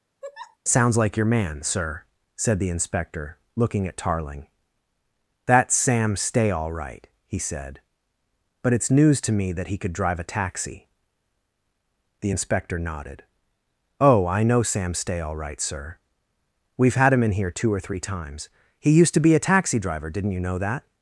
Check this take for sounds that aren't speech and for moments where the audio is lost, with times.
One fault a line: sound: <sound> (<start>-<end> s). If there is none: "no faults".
sound: laugh (0.2-0.6 s)